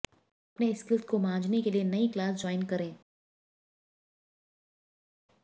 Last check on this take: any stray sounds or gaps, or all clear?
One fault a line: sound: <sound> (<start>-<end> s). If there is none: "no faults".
no faults